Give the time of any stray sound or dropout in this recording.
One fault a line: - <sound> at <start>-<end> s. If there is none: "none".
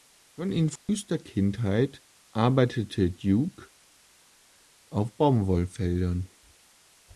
- dropout at 0.8-0.9 s